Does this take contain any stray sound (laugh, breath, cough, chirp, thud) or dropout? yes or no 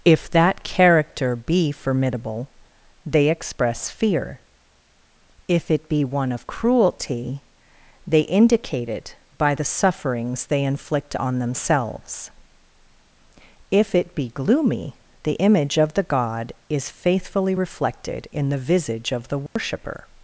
yes